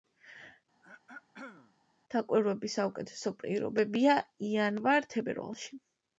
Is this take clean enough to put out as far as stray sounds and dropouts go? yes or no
no